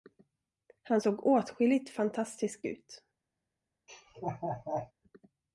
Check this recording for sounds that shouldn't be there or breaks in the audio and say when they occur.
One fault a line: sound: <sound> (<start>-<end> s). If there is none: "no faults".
sound: laugh (3.9-4.9 s)